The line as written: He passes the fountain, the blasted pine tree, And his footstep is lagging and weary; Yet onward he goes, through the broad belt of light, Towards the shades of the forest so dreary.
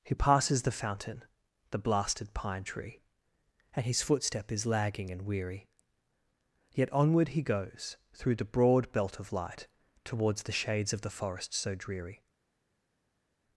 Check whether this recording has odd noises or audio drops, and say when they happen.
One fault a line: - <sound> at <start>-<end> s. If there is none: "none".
none